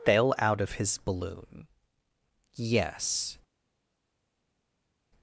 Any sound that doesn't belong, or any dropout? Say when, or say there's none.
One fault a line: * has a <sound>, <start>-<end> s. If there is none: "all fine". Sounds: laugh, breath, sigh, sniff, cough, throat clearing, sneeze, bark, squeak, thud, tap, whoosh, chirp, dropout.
all fine